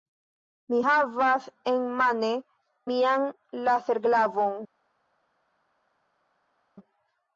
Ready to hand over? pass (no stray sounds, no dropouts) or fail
pass